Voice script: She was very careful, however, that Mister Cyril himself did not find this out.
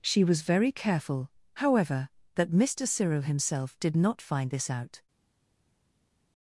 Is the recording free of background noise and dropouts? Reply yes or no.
yes